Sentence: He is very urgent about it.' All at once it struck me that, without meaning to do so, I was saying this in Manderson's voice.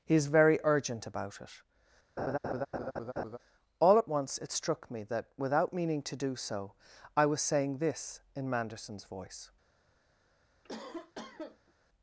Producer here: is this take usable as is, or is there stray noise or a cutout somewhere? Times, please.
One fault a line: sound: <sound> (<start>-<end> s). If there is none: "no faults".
sound: laugh (2.2-3.4 s)
sound: cough (10.6-11.7 s)